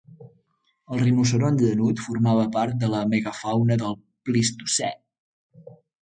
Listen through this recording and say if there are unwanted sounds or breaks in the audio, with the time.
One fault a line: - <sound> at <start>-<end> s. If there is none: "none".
none